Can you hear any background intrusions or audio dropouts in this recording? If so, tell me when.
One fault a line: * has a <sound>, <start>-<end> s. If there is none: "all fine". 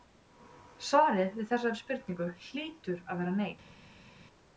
all fine